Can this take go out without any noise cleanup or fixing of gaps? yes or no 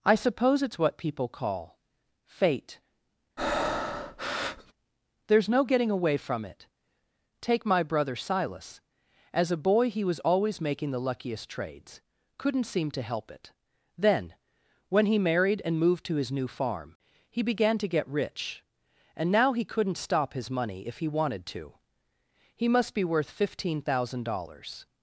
no